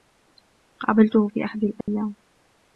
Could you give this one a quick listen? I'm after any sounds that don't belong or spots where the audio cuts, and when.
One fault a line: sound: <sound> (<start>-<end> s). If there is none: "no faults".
sound: dropout (1.8-1.9 s)